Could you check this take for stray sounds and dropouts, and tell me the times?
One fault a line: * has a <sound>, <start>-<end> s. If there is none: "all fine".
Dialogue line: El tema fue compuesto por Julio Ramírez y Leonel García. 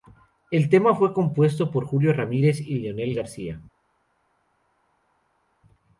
all fine